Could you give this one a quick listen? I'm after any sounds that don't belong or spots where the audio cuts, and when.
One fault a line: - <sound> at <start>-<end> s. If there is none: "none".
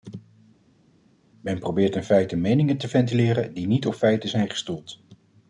none